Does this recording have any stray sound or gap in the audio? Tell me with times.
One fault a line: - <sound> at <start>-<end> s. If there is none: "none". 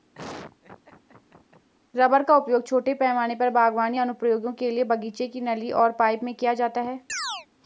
- laugh at 0.1-1.7 s
- chirp at 7.1-7.5 s